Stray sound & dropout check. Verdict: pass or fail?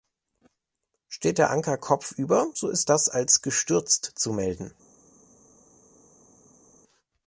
pass